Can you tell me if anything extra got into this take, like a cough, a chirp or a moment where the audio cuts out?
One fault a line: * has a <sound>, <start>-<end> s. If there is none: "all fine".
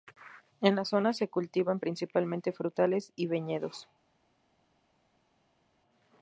all fine